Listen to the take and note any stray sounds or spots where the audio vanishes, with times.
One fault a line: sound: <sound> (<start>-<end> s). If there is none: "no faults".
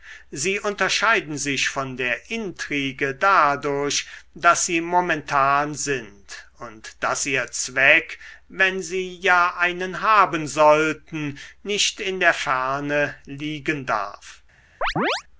sound: chirp (14.8-15.2 s)